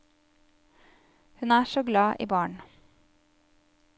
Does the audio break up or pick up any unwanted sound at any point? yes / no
no